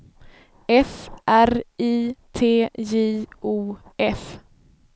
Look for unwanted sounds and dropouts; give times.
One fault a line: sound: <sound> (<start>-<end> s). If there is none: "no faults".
no faults